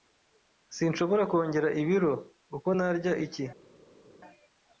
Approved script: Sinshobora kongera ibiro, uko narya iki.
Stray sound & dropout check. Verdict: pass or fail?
pass